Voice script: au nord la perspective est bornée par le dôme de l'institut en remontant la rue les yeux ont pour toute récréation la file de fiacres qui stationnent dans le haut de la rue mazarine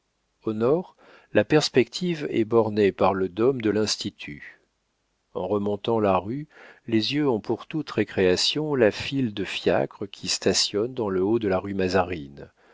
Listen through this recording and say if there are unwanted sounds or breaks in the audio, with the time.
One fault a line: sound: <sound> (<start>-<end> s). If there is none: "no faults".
no faults